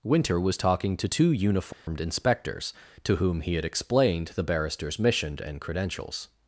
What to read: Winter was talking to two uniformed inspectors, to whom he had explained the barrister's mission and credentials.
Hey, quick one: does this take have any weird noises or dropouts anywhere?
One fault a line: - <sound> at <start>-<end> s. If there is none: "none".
- dropout at 1.7-1.9 s